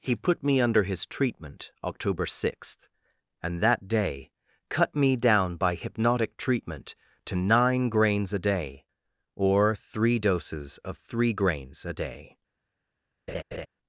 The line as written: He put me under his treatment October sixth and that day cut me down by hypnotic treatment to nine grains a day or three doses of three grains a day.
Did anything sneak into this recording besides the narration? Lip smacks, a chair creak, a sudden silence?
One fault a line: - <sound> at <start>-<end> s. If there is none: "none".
- laugh at 13.3-13.7 s